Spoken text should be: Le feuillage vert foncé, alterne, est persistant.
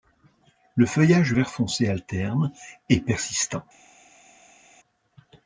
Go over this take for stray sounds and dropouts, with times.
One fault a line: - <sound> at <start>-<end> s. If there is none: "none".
none